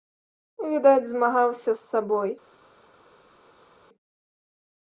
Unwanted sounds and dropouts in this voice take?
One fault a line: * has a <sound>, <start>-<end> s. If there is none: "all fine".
all fine